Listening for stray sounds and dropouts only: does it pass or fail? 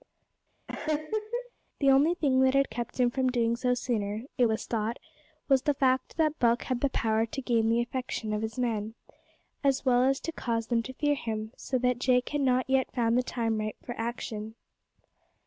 fail